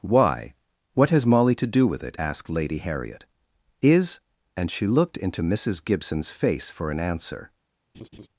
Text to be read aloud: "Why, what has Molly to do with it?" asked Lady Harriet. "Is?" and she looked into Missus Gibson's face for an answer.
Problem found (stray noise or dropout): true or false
true